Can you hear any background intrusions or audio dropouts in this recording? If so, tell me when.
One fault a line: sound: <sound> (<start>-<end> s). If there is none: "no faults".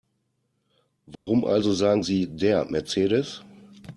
sound: dropout (1.2-1.3 s)